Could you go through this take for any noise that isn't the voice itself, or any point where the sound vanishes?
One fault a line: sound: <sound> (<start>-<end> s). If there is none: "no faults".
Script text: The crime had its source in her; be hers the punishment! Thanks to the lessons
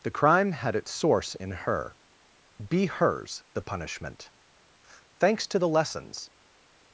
no faults